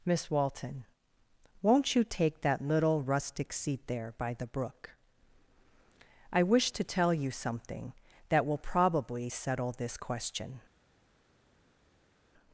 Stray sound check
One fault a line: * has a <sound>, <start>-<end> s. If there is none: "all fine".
all fine